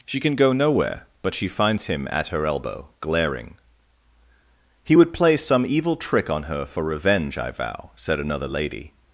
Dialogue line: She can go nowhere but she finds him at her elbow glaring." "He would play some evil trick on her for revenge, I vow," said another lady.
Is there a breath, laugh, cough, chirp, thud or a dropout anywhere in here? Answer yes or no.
no